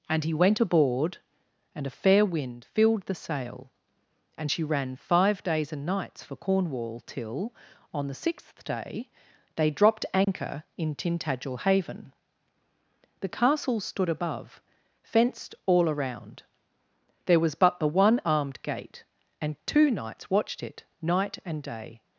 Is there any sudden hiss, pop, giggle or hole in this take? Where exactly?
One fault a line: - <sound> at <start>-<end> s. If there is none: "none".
- dropout at 10.2-10.3 s